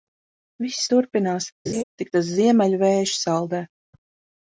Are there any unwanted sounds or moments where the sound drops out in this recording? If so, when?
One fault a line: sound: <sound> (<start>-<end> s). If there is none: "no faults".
sound: laugh (1.7-1.8 s)